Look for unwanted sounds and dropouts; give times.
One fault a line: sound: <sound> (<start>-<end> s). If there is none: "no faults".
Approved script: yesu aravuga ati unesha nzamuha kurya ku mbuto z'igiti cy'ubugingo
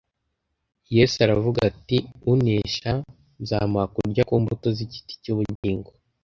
sound: dropout (5.6-5.6 s)